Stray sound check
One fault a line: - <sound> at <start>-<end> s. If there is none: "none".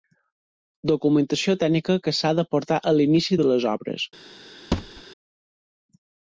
- thud at 4.7-5.0 s